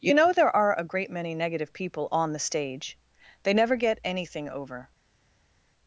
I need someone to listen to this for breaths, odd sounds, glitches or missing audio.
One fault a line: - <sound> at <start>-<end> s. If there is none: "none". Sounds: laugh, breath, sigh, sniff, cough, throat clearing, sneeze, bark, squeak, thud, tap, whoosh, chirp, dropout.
none